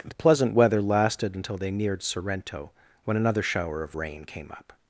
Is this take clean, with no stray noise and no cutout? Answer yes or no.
yes